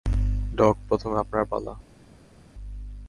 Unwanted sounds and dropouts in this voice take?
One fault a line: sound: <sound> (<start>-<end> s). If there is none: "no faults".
no faults